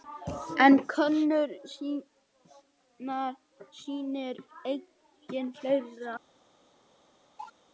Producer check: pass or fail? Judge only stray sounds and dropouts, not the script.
fail